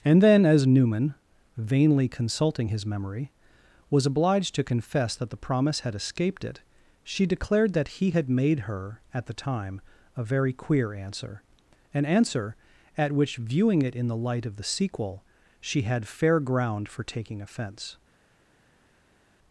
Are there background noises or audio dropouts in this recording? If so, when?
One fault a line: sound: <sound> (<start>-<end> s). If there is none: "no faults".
no faults